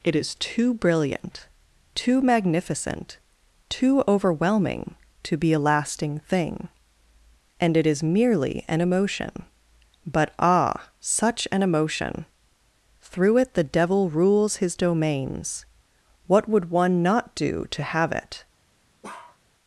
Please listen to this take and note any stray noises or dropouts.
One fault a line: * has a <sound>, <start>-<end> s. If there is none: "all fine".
* has a bark, 19.0-19.4 s